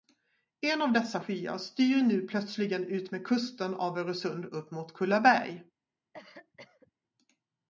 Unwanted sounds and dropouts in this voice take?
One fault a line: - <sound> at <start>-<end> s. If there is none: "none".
- cough at 6.1-6.9 s